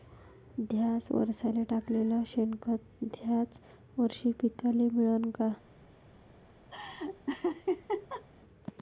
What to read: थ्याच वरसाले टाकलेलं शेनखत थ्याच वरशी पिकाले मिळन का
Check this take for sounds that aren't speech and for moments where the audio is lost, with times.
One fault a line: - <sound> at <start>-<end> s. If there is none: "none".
- laugh at 6.7-8.2 s